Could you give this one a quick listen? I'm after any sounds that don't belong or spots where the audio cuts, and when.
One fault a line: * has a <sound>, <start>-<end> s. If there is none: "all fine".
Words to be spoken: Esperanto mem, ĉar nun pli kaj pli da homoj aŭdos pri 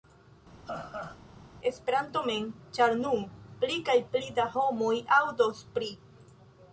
* has a laugh, 0.7-1.2 s